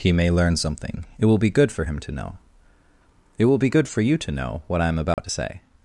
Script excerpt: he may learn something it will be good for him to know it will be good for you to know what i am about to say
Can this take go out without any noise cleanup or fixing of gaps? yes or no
no